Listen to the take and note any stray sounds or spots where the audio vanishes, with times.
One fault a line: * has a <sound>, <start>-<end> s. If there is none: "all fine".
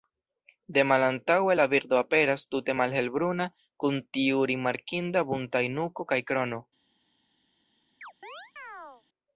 * has a chirp, 8.0-9.0 s